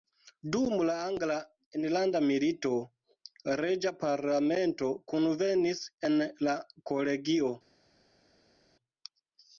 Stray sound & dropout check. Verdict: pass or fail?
pass